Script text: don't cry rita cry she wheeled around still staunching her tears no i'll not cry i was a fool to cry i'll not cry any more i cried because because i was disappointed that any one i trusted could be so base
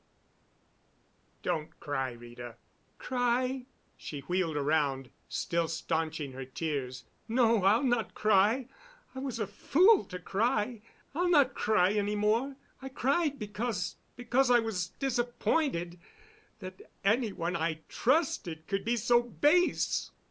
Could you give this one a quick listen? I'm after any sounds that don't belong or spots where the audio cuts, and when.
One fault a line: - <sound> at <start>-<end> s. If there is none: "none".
none